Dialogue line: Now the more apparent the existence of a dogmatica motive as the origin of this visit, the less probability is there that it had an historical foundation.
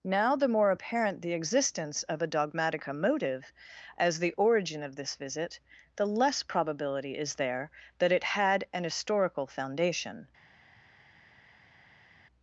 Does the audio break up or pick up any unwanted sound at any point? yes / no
no